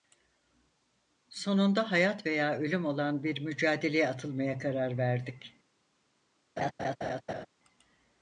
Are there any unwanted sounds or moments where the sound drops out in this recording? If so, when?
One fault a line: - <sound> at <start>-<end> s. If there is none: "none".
- laugh at 6.6-7.5 s